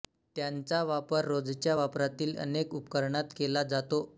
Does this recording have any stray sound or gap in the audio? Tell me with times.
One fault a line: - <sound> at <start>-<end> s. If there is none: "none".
none